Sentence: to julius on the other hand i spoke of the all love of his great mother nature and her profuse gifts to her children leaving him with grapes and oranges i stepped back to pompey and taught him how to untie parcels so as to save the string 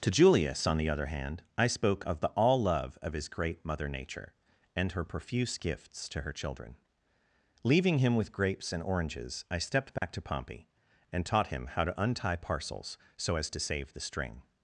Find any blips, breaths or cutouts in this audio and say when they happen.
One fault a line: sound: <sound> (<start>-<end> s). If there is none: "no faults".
sound: dropout (10.0-10.0 s)